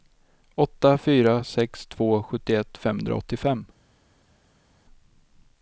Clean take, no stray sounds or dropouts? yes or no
yes